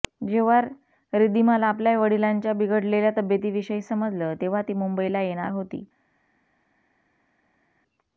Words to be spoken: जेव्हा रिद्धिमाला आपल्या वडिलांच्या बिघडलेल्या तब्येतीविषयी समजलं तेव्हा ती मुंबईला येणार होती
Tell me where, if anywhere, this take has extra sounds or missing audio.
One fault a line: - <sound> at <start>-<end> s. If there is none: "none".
none